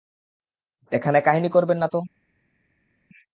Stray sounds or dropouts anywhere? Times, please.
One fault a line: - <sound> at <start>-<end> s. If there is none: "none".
none